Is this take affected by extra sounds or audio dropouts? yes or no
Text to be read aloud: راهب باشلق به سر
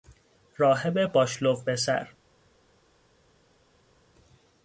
no